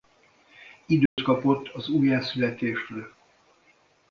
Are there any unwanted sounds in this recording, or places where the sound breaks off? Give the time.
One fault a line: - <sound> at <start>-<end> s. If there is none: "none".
- dropout at 1.1-1.2 s